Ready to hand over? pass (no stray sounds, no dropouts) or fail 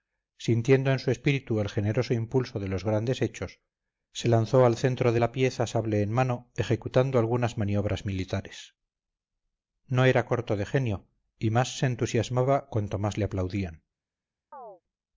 fail